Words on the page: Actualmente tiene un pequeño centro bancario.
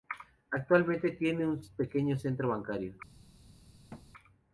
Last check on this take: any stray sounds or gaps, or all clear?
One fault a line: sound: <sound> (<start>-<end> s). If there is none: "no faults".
sound: thud (3.9-4.1 s)